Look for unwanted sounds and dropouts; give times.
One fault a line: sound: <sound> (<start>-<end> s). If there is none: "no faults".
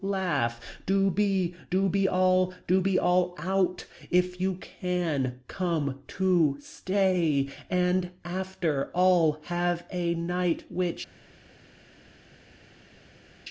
no faults